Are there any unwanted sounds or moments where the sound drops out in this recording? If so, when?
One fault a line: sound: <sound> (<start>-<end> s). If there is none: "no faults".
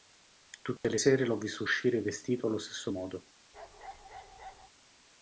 sound: dropout (0.8-0.8 s)
sound: bark (3.5-4.7 s)